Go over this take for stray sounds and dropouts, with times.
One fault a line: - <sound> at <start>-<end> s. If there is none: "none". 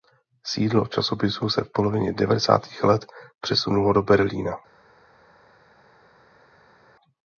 none